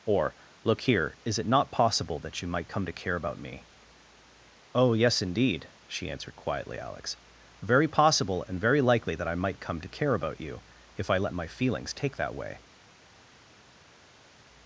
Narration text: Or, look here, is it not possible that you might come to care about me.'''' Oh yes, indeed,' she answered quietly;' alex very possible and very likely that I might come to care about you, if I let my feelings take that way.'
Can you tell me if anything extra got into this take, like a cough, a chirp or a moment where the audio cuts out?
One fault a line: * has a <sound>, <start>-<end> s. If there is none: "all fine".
all fine